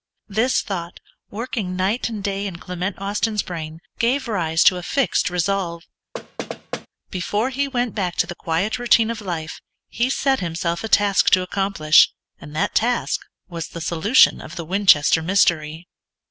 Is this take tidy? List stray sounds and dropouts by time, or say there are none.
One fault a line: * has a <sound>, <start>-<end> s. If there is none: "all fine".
* has a thud, 6.1-6.9 s